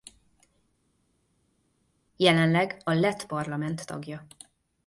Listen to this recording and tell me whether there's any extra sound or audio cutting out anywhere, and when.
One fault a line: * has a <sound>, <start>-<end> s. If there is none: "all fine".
all fine